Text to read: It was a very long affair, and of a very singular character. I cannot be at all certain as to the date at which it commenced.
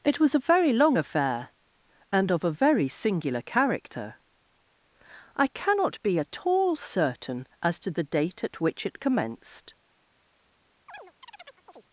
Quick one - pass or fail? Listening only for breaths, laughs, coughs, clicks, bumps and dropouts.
fail